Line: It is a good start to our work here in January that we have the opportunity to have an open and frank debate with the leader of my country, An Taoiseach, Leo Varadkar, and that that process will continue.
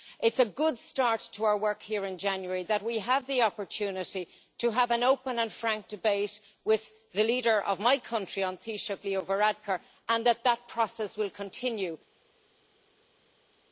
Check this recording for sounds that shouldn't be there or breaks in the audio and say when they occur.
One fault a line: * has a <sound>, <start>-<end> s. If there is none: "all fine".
all fine